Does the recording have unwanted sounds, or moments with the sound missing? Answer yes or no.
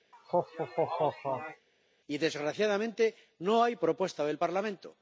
yes